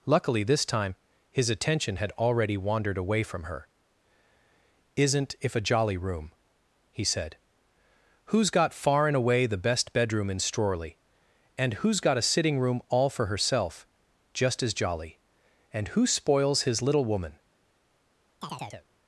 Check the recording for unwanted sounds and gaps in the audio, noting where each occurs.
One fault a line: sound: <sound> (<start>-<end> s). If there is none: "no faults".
sound: chirp (18.4-18.9 s)